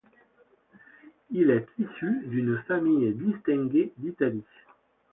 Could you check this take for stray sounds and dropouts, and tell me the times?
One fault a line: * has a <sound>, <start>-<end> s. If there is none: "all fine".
all fine